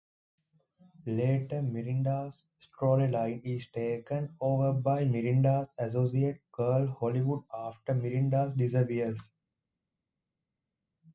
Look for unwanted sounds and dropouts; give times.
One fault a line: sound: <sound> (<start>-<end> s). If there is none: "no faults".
no faults